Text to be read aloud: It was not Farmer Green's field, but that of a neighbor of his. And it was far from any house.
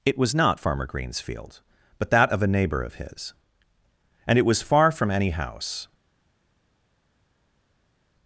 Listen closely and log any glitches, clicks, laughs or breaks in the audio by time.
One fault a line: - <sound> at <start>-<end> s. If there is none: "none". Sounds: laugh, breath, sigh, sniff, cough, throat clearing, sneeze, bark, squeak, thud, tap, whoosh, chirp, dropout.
none